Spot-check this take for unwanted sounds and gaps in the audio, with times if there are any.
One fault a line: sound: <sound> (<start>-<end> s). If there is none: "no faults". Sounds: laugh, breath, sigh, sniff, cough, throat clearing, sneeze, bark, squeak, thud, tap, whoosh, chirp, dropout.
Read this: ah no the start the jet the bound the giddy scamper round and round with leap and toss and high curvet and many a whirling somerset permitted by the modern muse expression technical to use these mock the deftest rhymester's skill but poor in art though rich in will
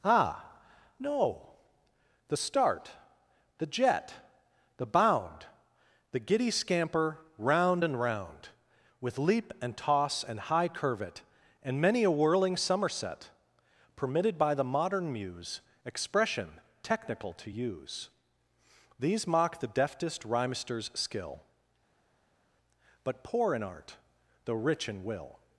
no faults